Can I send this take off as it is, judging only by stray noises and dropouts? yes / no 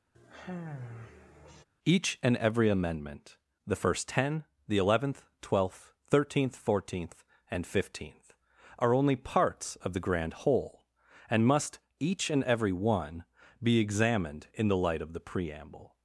no